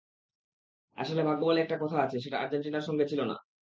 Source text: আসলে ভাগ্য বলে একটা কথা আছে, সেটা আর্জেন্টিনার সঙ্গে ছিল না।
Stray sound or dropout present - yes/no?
no